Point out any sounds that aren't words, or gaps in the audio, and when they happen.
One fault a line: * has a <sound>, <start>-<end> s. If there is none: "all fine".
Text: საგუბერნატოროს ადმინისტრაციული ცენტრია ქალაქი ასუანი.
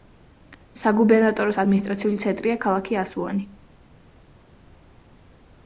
all fine